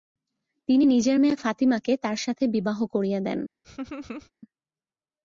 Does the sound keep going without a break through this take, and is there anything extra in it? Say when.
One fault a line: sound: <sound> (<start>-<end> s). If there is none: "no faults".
sound: laugh (3.6-4.3 s)